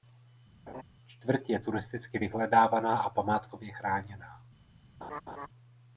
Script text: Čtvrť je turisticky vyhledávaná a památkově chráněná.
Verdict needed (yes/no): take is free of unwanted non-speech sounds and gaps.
no